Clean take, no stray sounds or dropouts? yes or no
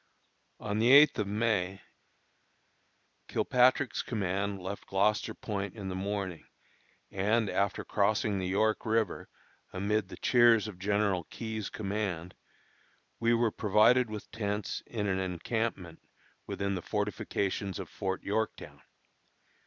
yes